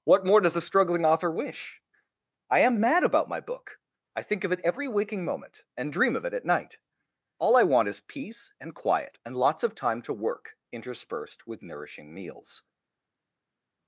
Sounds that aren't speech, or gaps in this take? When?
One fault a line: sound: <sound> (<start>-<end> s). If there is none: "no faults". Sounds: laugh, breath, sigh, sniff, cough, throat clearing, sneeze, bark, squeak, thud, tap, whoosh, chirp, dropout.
no faults